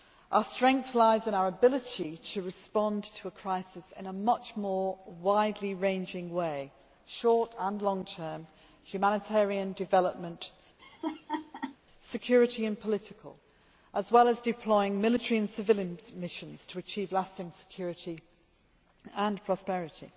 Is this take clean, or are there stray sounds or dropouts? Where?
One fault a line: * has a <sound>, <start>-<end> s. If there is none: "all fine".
* has a laugh, 10.8-11.8 s